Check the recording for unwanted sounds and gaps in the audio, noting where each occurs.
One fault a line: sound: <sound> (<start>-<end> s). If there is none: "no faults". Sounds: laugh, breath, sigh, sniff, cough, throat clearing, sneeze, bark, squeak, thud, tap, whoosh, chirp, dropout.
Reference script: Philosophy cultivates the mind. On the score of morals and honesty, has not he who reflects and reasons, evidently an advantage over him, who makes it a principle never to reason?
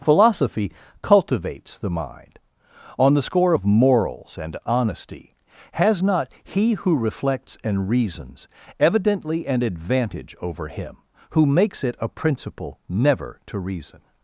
no faults